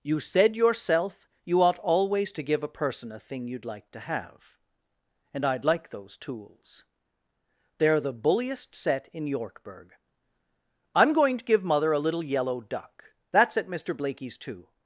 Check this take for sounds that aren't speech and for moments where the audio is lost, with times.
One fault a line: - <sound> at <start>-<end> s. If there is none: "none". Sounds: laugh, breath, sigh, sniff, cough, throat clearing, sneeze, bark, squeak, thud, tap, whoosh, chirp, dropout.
none